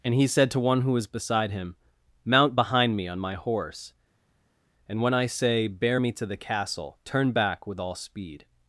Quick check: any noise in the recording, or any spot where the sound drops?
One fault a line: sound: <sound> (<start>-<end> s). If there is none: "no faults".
no faults